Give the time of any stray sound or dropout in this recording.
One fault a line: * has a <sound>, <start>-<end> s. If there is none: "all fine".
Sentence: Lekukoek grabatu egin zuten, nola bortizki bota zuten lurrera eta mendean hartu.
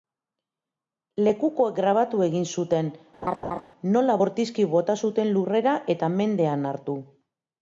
* has a laugh, 3.2-3.6 s